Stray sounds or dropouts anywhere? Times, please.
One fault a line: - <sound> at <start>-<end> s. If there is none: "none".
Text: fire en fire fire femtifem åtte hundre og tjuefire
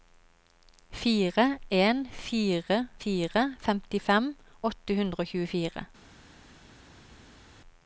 none